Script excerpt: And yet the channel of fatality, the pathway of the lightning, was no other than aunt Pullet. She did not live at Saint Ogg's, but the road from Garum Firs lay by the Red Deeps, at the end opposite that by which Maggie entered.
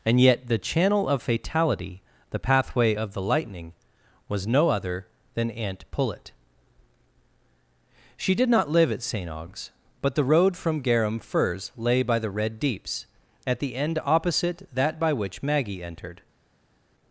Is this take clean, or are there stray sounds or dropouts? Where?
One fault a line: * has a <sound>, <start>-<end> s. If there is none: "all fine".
all fine